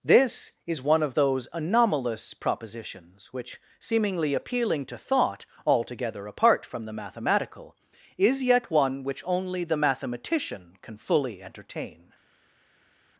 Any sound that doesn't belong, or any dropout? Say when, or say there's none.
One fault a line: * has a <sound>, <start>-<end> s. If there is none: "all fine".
all fine